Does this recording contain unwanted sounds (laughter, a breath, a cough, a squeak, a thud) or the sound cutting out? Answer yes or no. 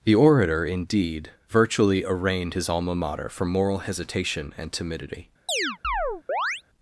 yes